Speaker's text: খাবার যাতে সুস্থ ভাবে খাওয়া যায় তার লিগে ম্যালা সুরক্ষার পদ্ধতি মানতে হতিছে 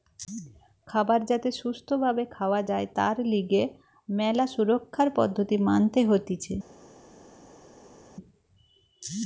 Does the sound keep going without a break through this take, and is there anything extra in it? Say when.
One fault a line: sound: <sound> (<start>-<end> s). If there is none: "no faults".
no faults